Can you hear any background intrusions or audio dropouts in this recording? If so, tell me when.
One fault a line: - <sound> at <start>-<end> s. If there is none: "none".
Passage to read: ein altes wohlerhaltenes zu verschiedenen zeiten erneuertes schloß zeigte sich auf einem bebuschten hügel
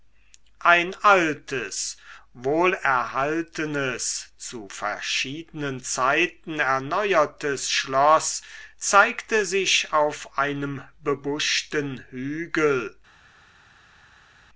none